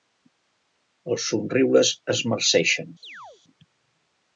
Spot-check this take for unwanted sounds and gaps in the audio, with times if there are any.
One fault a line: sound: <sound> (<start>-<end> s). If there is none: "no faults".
sound: chirp (3.0-3.4 s)